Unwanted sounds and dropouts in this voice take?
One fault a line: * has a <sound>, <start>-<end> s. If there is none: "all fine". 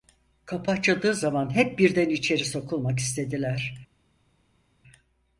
all fine